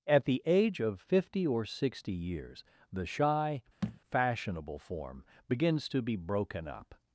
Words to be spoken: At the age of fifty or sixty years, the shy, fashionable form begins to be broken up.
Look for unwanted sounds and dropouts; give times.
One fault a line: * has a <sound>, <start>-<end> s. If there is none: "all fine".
* has a thud, 3.8-4.0 s